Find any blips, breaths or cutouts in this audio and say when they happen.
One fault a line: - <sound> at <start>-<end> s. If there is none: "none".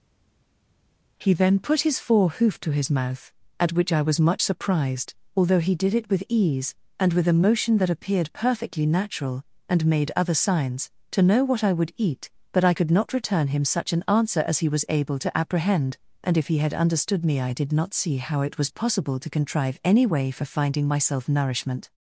none